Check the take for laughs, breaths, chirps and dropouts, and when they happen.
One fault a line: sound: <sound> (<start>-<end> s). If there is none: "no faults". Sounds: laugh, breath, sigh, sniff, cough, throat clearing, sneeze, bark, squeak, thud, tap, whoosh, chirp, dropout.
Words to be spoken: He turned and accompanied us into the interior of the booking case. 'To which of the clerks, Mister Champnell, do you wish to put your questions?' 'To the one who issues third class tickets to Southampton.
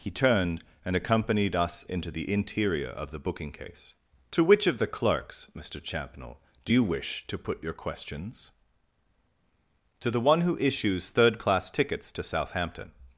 no faults